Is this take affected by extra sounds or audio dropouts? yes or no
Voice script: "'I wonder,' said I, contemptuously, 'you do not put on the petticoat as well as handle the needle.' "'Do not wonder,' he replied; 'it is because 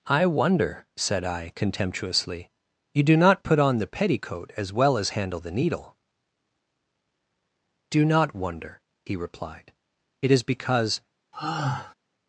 yes